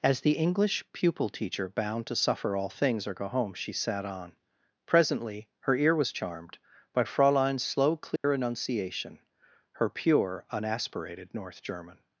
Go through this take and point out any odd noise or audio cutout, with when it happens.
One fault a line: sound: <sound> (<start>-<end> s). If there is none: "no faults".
sound: dropout (8.2-8.2 s)